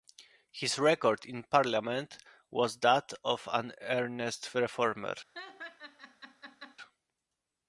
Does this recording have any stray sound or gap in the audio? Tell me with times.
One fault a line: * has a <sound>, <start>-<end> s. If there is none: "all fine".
* has a laugh, 5.3-6.8 s